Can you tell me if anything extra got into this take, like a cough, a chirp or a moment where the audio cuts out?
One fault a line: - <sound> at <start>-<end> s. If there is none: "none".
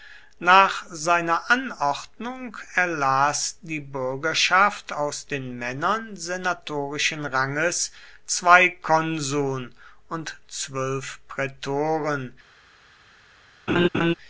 - laugh at 13.7-14.1 s